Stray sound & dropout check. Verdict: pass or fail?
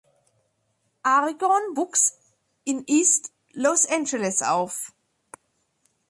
pass